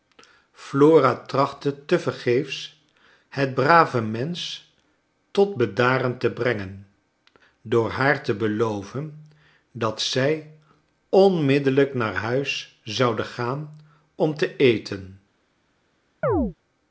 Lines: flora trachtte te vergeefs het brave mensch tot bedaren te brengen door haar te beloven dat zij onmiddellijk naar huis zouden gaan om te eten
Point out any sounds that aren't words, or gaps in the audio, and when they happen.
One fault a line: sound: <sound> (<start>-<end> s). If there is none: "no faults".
sound: chirp (16.2-16.5 s)